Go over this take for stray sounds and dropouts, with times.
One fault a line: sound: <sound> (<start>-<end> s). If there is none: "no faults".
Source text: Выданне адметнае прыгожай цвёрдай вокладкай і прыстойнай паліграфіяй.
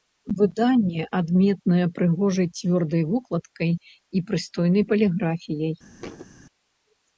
sound: thud (6.0-6.3 s)